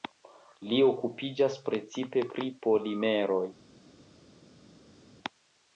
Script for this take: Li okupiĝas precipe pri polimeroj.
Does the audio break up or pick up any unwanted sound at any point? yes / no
no